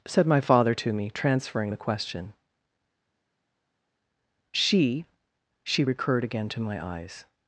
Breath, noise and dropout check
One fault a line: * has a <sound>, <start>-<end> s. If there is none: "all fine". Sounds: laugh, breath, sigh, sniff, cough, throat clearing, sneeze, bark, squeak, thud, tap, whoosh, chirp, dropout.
all fine